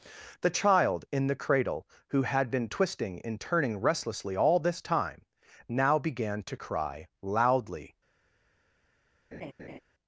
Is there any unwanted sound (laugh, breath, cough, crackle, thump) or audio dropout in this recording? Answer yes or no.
yes